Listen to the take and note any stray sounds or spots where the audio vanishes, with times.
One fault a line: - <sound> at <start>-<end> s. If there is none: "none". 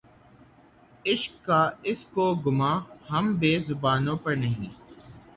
none